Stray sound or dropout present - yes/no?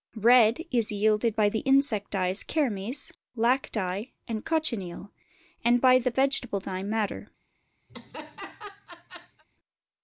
yes